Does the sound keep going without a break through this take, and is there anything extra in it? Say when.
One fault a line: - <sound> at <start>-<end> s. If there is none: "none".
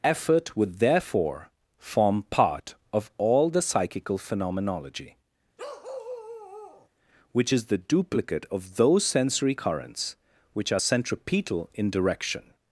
- bark at 5.6-6.9 s